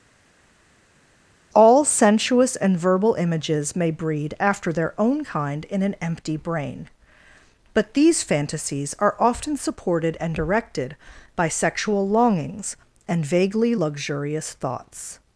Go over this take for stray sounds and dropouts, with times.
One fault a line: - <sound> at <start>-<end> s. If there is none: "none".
none